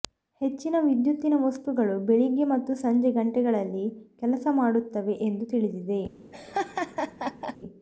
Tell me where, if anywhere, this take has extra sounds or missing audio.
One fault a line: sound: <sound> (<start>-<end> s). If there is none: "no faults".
sound: laugh (6.3-7.6 s)